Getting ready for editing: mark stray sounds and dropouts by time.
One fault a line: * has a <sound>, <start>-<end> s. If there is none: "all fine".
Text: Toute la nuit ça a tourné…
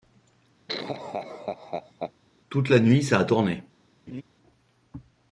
* has a laugh, 0.7-2.1 s
* has a laugh, 4.1-4.2 s